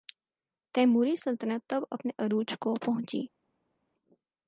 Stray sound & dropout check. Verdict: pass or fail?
pass